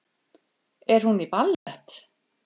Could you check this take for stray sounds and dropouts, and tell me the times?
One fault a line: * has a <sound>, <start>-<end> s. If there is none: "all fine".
* has a dropout, 1.5-1.7 s